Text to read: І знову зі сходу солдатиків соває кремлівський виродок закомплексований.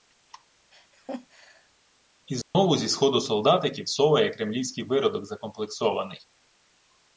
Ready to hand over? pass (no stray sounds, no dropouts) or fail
fail